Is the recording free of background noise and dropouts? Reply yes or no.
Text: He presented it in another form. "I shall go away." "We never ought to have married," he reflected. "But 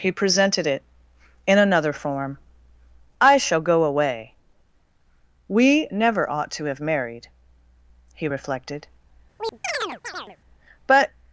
no